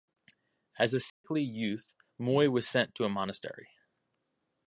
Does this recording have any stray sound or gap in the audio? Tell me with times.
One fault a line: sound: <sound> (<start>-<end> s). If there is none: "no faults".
sound: dropout (1.1-1.2 s)